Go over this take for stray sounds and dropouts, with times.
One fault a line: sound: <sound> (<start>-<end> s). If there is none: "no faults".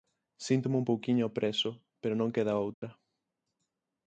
sound: dropout (2.7-2.8 s)